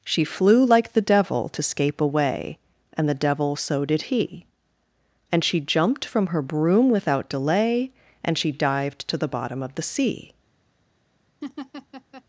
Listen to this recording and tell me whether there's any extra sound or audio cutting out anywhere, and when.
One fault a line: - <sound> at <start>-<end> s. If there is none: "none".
- laugh at 11.4-12.2 s